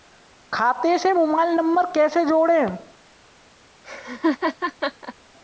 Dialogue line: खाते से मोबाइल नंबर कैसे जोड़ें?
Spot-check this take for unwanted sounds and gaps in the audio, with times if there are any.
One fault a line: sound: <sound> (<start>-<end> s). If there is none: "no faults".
sound: laugh (3.8-5.1 s)